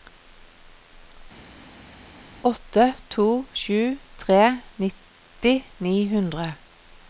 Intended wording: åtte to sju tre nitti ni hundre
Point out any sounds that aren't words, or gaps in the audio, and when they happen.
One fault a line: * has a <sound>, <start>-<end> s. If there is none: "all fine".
all fine